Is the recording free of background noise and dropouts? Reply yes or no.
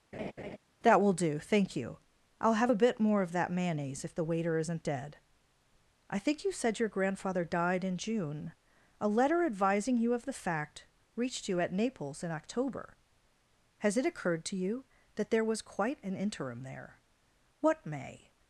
no